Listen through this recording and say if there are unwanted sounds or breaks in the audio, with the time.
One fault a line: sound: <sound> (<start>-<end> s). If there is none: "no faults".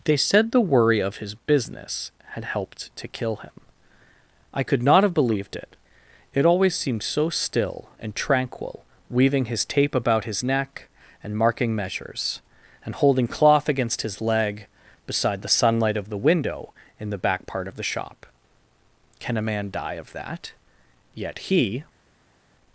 no faults